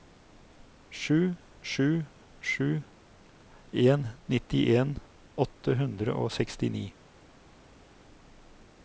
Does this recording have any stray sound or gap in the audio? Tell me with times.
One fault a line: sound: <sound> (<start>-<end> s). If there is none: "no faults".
no faults